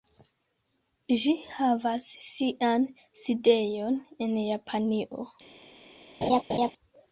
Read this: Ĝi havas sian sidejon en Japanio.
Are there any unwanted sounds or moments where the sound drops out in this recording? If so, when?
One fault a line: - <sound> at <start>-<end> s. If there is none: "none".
- laugh at 6.2-6.7 s